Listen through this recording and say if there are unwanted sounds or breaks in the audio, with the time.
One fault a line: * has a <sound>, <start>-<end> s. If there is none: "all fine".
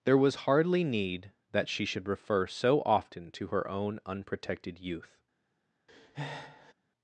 * has a breath, 5.9-6.7 s